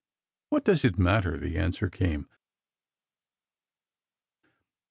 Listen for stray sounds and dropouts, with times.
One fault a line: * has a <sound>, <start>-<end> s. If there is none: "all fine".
all fine